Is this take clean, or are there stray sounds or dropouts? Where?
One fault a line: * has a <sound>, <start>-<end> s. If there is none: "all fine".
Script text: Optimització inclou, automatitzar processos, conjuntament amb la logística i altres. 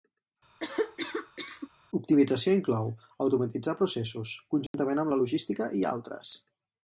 * has a cough, 0.6-1.7 s
* has a dropout, 4.7-4.7 s